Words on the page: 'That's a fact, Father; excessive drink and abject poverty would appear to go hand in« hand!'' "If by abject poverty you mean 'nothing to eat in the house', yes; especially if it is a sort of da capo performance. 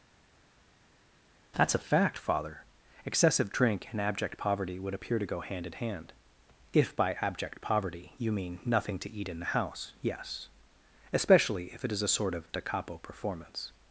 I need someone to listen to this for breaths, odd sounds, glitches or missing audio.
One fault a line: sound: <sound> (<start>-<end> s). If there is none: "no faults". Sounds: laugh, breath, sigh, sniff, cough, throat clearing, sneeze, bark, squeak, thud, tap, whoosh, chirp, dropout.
no faults